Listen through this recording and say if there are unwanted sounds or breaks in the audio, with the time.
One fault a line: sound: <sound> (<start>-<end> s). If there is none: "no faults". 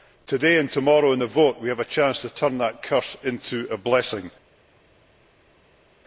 no faults